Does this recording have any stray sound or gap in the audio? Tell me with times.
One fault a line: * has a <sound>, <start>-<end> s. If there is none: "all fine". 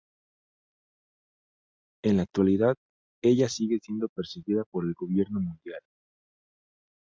all fine